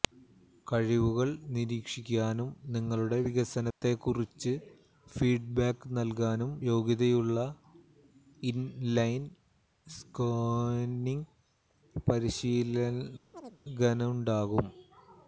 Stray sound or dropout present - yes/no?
yes